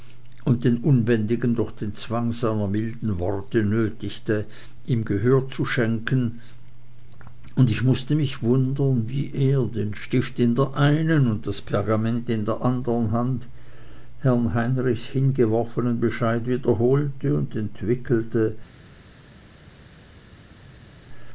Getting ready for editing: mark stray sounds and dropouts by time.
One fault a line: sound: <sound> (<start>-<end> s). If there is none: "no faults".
no faults